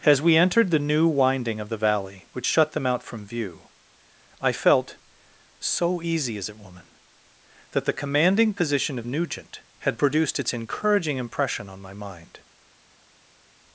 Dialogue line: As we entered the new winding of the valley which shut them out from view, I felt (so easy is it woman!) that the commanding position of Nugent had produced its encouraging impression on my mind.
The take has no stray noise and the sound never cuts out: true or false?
true